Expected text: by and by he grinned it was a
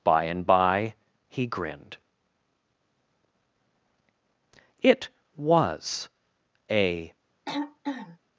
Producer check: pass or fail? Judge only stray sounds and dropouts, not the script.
fail